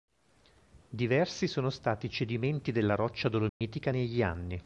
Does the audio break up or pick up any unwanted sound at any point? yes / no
yes